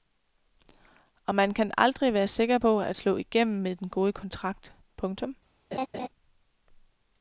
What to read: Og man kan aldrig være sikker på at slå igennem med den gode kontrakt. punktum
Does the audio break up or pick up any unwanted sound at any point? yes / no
yes